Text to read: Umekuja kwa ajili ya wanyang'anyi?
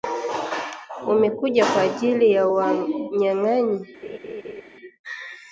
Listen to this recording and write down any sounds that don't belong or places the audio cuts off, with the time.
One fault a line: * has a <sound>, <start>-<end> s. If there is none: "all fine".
* has a laugh, 4.0-4.6 s